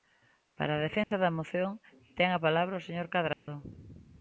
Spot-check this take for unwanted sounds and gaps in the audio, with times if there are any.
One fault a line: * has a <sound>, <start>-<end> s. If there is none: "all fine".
* has a dropout, 1.0-1.1 s
* has a dropout, 3.3-3.5 s